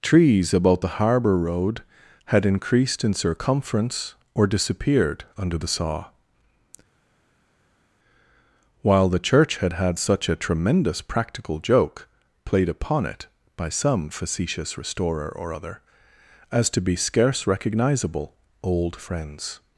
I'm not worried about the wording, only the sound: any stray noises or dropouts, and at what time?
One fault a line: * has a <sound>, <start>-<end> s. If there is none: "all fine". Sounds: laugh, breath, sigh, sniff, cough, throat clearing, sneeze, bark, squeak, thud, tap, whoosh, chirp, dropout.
all fine